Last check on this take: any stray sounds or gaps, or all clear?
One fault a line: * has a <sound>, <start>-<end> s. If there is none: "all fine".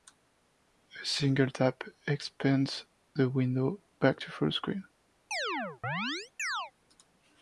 * has a chirp, 5.3-6.7 s